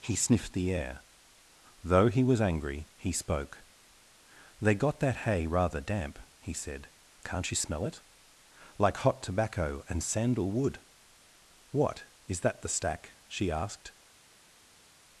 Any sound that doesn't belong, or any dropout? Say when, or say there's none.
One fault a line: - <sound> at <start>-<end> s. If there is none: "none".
none